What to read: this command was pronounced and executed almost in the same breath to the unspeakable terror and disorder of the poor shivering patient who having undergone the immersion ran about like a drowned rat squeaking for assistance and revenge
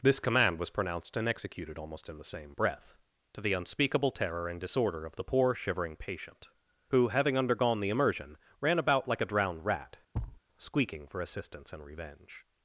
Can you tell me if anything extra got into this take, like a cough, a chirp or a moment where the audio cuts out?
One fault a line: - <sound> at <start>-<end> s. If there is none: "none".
- thud at 10.1-10.4 s